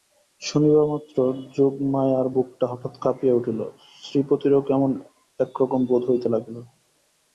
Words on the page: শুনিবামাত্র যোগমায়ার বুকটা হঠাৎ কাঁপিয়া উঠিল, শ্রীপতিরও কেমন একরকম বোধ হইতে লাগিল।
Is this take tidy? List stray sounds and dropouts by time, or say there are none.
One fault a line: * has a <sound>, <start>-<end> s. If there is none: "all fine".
all fine